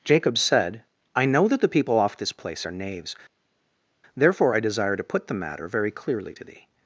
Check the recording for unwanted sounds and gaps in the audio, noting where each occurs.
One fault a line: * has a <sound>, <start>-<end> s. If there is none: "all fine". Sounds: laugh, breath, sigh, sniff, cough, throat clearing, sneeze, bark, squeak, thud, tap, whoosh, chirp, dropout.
all fine